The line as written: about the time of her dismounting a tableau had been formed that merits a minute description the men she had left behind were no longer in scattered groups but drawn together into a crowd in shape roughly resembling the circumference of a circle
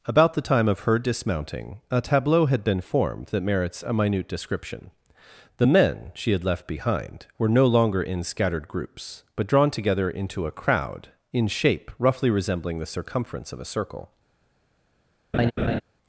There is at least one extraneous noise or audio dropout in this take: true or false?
true